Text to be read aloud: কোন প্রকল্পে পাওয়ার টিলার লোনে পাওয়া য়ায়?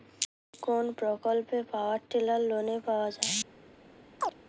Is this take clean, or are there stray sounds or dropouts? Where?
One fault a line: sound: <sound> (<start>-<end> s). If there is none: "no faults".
sound: chirp (4.2-4.3 s)